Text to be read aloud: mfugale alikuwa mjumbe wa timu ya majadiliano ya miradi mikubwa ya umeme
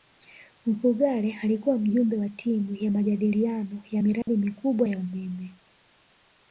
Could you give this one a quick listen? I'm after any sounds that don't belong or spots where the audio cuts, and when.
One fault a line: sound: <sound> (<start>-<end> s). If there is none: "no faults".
sound: dropout (4.2-4.3 s)